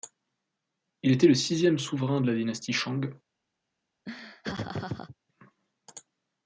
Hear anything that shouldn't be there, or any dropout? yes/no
yes